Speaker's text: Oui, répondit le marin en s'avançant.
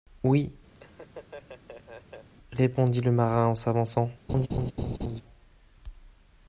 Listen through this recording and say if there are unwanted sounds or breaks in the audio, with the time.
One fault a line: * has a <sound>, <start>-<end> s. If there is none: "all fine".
* has a laugh, 0.7-2.3 s
* has a laugh, 4.3-5.2 s